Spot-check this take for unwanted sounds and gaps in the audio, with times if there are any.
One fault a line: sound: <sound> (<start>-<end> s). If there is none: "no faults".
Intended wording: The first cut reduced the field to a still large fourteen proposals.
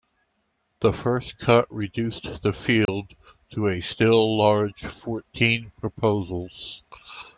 sound: dropout (2.9-2.9 s)